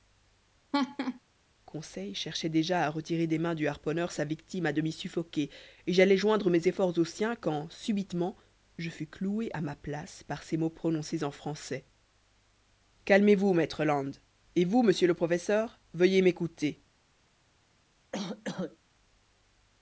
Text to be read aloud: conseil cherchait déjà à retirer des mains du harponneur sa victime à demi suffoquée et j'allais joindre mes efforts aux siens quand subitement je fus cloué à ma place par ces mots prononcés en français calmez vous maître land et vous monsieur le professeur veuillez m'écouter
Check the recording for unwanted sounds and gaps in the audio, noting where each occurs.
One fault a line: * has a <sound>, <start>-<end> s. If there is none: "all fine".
* has a laugh, 0.7-1.2 s
* has a cough, 18.1-18.8 s